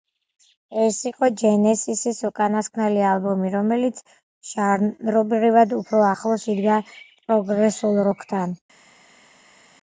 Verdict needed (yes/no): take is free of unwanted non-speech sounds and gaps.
yes